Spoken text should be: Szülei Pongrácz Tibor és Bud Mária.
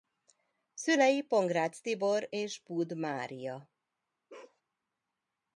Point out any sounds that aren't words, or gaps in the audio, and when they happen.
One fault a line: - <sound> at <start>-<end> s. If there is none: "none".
- bark at 4.3-4.6 s